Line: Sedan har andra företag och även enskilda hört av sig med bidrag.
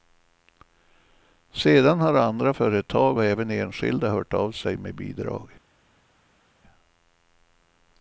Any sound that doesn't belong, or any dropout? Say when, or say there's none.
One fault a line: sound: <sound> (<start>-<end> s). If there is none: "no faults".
no faults